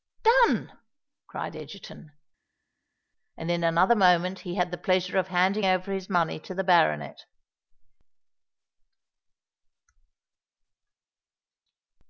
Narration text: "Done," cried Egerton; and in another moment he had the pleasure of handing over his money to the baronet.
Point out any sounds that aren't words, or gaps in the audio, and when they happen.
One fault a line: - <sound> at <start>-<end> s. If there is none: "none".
none